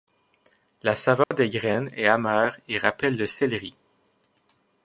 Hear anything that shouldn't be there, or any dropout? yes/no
yes